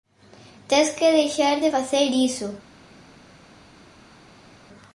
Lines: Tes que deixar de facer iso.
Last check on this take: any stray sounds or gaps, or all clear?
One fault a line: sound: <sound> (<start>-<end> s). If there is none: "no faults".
no faults